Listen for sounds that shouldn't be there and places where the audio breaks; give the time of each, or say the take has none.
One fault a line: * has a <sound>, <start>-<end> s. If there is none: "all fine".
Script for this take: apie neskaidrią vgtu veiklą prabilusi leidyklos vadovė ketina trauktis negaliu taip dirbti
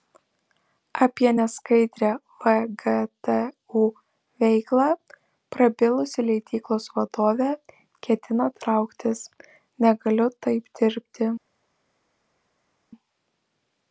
all fine